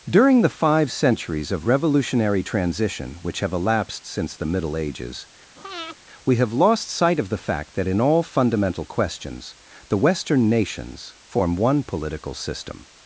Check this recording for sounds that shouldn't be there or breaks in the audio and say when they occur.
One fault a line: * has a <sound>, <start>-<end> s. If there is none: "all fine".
* has a breath, 5.6-6.0 s